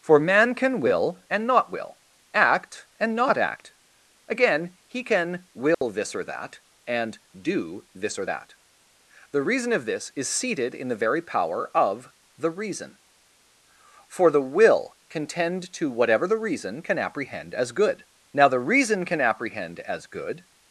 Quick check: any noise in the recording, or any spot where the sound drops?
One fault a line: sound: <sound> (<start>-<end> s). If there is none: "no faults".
sound: dropout (5.7-5.8 s)